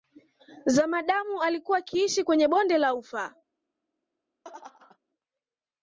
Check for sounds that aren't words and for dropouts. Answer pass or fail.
fail